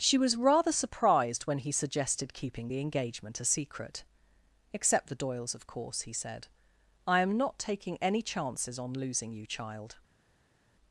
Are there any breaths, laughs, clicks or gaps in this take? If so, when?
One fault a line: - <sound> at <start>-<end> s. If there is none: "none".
none